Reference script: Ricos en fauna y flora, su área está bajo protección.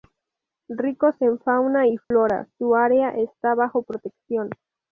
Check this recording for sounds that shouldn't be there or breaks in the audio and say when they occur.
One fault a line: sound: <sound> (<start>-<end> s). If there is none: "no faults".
sound: dropout (2.0-2.1 s)